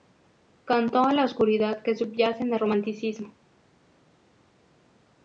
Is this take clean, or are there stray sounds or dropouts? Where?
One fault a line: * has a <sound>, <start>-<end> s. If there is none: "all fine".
all fine